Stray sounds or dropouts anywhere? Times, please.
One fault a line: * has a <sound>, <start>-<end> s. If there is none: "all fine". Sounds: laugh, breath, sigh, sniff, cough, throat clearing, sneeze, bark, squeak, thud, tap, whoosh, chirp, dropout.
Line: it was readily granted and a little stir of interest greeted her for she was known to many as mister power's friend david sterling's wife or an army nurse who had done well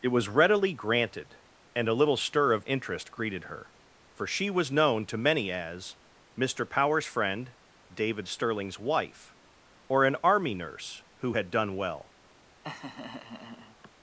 * has a laugh, 12.6-13.9 s